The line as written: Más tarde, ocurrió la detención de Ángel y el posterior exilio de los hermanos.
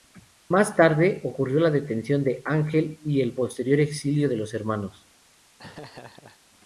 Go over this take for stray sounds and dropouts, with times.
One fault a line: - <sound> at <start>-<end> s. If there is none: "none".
- laugh at 5.6-6.4 s